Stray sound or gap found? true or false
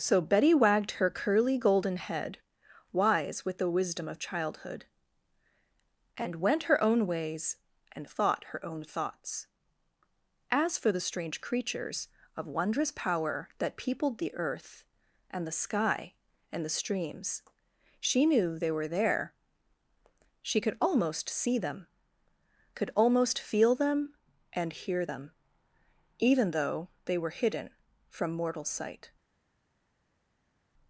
false